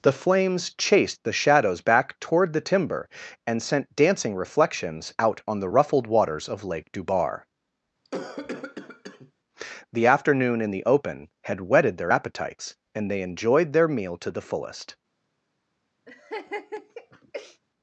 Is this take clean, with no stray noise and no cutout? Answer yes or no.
no